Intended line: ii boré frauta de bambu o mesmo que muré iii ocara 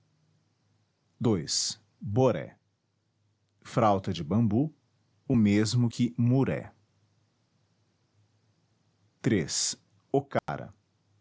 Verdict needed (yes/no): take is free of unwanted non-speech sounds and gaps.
no